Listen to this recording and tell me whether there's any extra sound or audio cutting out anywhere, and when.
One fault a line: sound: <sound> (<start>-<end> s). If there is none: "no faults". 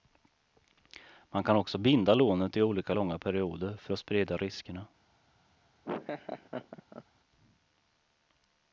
sound: laugh (5.8-7.0 s)